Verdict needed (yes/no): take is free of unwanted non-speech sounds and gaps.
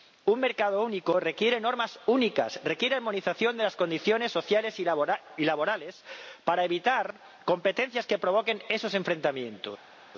yes